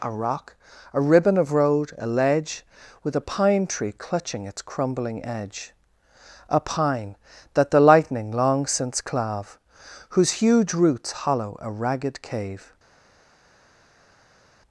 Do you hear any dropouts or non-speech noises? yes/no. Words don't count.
no